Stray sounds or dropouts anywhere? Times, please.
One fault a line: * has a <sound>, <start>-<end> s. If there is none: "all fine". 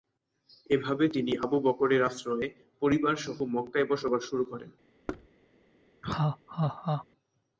* has a thud, 5.1-5.3 s
* has a laugh, 6.0-7.1 s